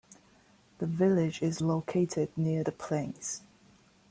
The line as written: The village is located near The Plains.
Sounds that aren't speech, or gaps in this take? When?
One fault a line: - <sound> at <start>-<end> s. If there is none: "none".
none